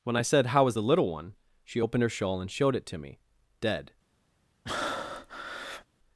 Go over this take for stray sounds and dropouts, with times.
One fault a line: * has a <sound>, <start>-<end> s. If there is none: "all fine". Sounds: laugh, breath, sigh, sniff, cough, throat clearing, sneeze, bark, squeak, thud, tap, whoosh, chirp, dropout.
* has a breath, 4.7-5.9 s